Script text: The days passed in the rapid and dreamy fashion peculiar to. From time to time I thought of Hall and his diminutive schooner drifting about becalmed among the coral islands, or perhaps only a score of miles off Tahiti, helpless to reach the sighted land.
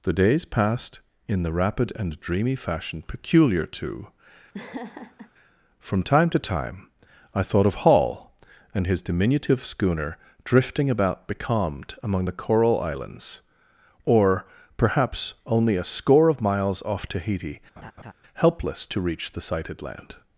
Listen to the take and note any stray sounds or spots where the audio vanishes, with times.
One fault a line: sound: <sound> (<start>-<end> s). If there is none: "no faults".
sound: laugh (4.5-5.3 s)
sound: laugh (17.8-18.1 s)